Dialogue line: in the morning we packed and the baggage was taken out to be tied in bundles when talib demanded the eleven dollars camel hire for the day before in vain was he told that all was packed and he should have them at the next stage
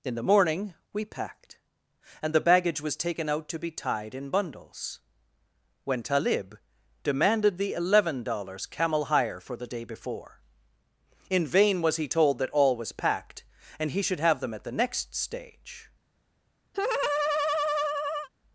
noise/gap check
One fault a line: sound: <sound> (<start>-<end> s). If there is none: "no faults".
sound: laugh (16.7-18.3 s)